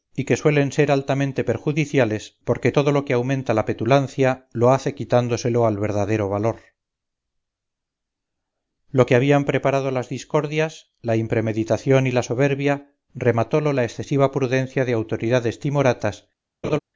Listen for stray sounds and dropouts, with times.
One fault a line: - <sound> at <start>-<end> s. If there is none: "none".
- laugh at 16.6-16.8 s